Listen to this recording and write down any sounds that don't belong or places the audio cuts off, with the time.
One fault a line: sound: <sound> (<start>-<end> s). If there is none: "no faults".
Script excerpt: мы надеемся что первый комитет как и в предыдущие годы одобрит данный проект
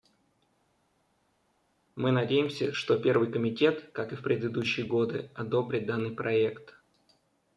no faults